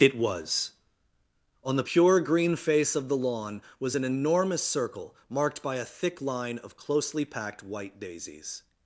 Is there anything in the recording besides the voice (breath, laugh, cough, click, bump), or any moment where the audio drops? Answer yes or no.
no